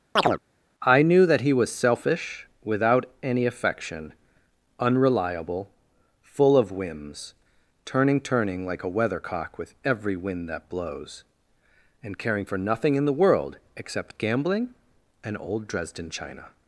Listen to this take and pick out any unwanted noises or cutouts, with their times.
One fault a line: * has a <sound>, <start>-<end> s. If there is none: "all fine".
* has a chirp, 0.2-0.4 s